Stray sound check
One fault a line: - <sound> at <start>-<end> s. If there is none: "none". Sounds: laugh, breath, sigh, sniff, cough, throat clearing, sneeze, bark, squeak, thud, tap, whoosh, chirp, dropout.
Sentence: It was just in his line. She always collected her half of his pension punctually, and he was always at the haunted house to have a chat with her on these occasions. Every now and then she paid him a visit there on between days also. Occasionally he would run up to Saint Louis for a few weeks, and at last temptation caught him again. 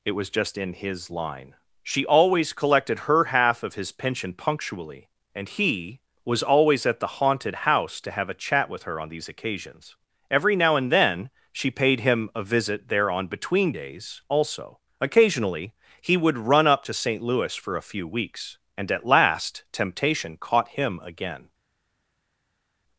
none